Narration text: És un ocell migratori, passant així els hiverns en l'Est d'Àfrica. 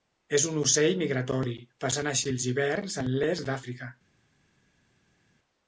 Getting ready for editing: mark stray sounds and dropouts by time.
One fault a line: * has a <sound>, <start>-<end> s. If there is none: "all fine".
all fine